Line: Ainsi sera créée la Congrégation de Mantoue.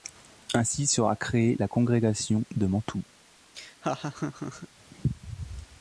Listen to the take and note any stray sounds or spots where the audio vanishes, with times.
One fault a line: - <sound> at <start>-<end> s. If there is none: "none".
- laugh at 3.5-4.7 s